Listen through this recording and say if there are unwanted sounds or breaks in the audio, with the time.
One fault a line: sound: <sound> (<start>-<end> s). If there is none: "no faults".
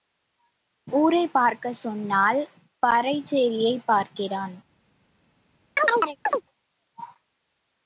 sound: chirp (5.8-6.4 s)